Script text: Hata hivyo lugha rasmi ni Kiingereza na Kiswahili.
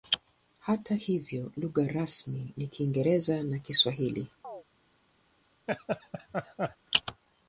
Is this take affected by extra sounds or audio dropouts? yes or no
yes